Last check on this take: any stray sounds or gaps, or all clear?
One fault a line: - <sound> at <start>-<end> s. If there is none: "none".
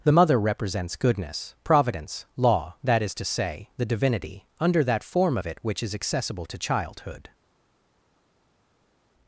none